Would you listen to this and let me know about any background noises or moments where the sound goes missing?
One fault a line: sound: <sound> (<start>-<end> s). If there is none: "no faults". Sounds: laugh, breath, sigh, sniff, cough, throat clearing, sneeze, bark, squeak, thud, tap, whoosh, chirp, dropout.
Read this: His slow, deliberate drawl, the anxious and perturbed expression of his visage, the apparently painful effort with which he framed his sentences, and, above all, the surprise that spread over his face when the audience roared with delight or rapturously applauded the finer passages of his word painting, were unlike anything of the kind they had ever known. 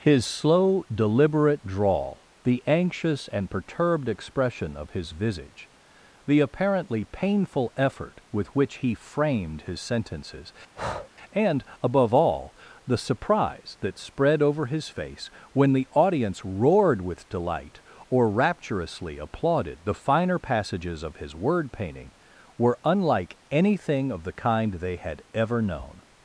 sound: breath (10.7-11.1 s)